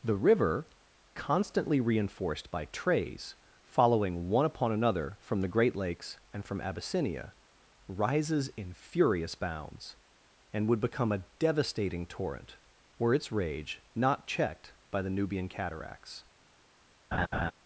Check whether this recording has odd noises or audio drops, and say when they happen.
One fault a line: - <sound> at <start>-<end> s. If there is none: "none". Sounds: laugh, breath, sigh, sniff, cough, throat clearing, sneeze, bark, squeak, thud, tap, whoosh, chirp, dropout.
- laugh at 17.1-17.5 s